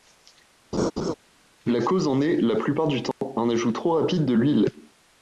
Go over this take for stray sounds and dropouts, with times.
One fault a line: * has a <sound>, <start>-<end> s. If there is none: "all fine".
* has a laugh, 0.7-1.1 s
* has a dropout, 3.1-3.2 s